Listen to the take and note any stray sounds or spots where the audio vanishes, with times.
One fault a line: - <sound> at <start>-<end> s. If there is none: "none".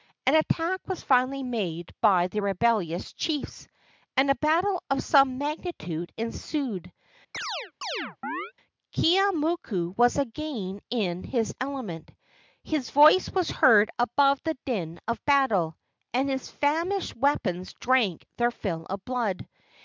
- chirp at 7.3-8.5 s